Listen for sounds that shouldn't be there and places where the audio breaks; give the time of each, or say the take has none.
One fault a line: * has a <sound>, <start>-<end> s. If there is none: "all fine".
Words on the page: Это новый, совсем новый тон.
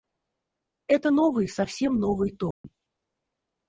* has a dropout, 2.5-2.6 s